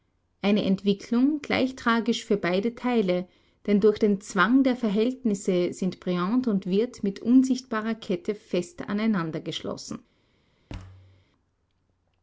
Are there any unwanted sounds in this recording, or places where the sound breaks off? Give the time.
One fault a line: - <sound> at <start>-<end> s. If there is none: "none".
- thud at 10.7-11.3 s